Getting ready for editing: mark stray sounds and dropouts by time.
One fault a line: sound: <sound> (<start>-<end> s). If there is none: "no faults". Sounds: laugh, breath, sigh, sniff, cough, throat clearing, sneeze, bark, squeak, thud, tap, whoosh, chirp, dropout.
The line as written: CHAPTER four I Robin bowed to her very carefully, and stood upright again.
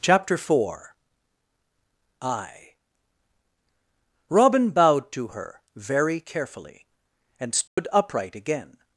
sound: dropout (7.7-7.8 s)